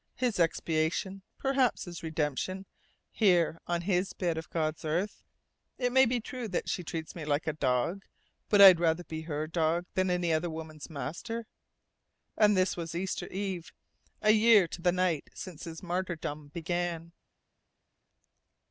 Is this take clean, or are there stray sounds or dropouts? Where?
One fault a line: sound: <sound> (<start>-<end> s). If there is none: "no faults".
no faults